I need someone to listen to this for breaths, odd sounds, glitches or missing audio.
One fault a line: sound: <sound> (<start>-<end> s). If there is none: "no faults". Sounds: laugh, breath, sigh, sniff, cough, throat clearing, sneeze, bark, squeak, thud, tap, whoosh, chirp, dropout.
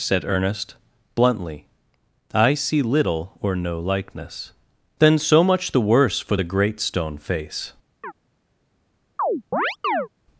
sound: chirp (8.0-8.1 s)
sound: chirp (9.2-10.1 s)